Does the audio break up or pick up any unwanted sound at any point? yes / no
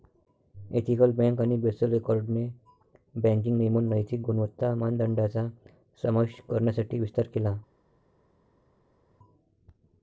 no